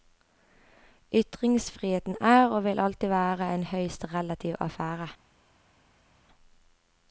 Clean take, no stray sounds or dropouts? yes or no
yes